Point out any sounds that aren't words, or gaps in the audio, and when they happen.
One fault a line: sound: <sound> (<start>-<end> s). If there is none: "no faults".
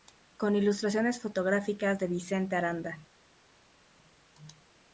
no faults